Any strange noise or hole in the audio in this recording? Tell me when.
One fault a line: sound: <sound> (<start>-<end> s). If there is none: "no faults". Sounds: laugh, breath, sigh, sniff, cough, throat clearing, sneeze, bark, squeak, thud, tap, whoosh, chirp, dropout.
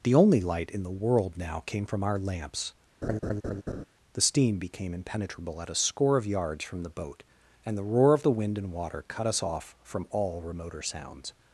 sound: laugh (3.0-3.8 s)